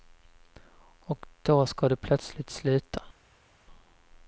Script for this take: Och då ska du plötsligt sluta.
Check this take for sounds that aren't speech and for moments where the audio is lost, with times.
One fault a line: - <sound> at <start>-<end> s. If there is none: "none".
none